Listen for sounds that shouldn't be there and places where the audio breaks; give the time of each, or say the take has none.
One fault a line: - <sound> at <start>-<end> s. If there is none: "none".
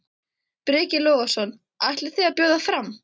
none